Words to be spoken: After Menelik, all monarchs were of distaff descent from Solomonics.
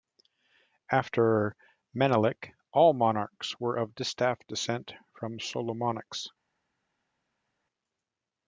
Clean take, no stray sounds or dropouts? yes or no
yes